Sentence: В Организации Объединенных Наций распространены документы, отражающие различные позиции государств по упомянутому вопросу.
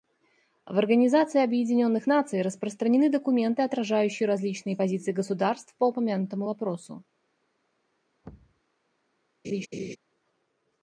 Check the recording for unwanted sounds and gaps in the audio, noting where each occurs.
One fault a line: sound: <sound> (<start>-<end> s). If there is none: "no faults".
sound: thud (8.2-8.6 s)
sound: laugh (9.4-10.0 s)